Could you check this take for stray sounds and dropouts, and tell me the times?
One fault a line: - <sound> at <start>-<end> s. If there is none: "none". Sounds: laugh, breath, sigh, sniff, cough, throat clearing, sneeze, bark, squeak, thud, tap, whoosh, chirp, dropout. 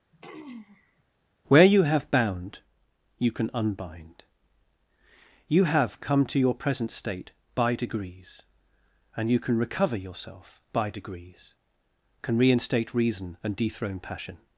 - throat clearing at 0.1-1.0 s